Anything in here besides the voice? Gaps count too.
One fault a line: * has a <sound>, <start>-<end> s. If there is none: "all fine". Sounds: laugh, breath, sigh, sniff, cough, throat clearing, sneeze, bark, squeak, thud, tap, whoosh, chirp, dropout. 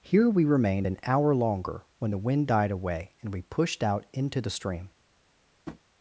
* has a tap, 5.7-5.8 s